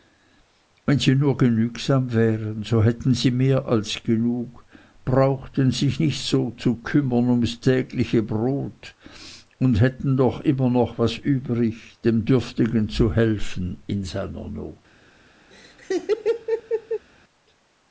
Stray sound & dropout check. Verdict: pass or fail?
fail